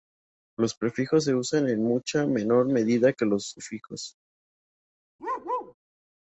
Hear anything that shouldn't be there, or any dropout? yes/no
yes